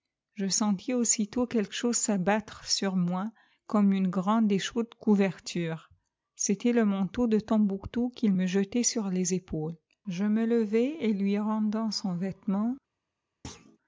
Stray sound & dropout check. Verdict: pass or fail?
fail